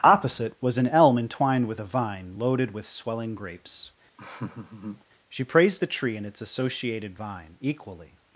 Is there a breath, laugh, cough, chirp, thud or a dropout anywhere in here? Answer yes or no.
yes